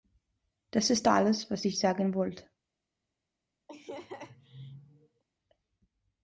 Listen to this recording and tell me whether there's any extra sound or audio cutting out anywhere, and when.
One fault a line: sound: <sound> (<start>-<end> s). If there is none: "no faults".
sound: laugh (3.7-5.2 s)